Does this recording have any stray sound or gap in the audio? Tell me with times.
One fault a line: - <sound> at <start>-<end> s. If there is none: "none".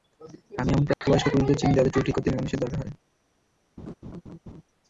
- dropout at 0.9-1.0 s
- laugh at 3.8-4.6 s